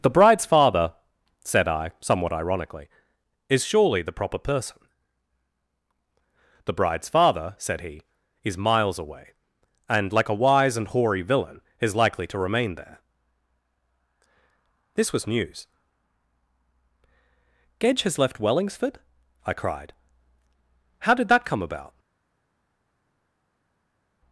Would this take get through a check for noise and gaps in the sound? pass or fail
pass